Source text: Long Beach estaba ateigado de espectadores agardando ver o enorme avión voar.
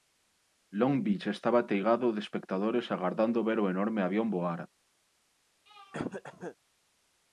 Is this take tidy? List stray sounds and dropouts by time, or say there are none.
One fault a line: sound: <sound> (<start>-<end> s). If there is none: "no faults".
sound: throat clearing (5.7-6.6 s)